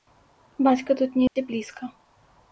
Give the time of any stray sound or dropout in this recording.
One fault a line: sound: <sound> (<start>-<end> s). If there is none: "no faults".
sound: dropout (1.3-1.4 s)